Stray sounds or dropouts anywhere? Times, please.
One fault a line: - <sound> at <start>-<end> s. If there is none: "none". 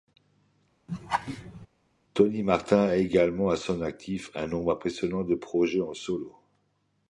- laugh at 0.9-1.7 s